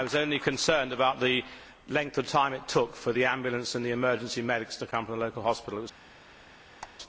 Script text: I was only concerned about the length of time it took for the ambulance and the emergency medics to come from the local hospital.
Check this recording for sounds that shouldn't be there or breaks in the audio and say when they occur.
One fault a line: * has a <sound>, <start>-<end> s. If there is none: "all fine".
* has a squeak, 6.8-7.0 s